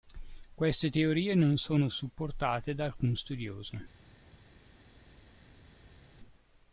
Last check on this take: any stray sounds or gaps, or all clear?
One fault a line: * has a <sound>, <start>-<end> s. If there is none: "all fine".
all fine